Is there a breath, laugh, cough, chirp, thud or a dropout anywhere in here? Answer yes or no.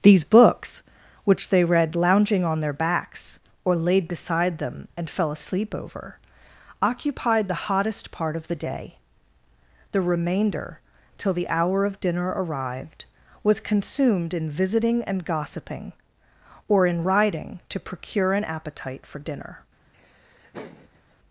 yes